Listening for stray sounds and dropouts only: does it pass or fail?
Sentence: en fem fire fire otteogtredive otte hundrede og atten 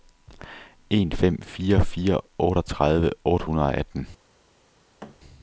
fail